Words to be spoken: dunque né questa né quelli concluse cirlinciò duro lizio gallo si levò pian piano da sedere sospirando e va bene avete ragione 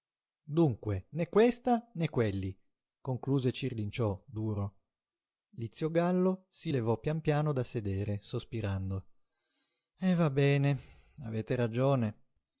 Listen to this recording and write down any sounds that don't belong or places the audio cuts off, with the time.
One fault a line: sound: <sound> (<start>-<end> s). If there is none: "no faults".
no faults